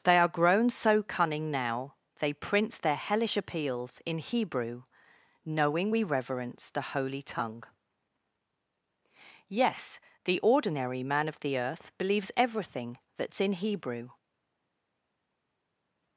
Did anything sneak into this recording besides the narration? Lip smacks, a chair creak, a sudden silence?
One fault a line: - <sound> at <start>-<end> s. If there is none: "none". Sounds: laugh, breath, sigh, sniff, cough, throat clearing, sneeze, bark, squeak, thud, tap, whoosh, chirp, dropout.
none